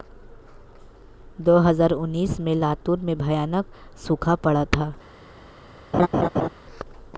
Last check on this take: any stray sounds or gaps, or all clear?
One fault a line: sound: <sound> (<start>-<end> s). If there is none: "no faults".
sound: laugh (5.9-6.5 s)